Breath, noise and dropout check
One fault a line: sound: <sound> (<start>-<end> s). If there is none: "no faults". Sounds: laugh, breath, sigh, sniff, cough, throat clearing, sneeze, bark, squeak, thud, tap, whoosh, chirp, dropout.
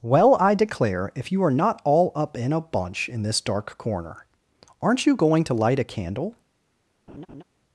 sound: laugh (7.1-7.4 s)